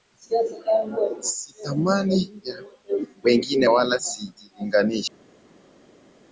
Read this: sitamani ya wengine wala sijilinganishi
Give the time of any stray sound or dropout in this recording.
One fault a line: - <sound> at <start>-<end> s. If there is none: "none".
none